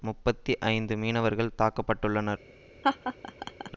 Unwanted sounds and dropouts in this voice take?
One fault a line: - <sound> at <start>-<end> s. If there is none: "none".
- laugh at 2.8-3.7 s